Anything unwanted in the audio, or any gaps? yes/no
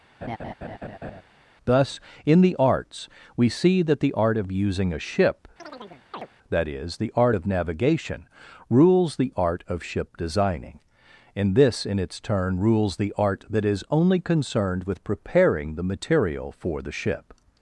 yes